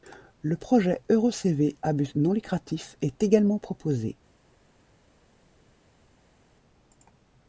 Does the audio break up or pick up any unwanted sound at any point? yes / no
no